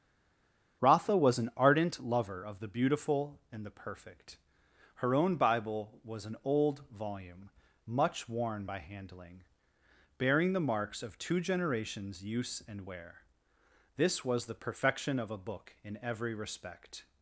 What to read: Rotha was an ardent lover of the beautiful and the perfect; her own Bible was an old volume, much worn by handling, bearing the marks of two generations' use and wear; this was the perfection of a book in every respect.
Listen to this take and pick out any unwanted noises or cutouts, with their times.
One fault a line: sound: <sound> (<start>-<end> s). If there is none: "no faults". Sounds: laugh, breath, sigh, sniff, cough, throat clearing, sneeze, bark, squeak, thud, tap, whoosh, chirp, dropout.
no faults